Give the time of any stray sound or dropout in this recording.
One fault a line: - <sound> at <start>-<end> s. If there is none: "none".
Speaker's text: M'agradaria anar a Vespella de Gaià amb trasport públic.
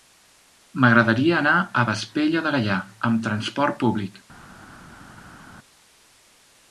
none